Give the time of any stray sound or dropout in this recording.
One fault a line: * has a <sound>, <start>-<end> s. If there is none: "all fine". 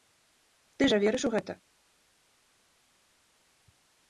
all fine